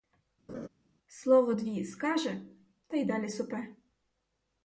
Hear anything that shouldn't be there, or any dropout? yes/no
yes